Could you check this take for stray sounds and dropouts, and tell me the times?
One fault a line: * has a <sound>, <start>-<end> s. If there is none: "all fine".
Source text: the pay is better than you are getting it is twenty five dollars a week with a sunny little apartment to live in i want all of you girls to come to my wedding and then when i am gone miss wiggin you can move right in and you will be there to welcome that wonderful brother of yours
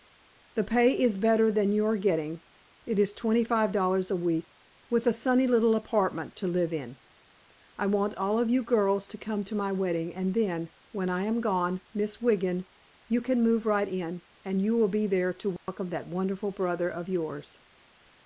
* has a dropout, 15.6-15.7 s